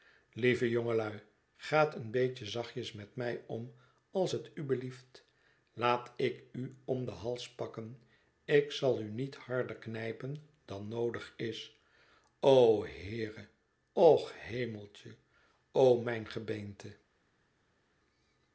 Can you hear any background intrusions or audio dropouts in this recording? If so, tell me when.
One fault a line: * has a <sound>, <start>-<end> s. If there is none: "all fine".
all fine